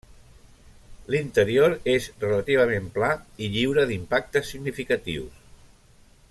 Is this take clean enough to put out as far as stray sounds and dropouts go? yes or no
yes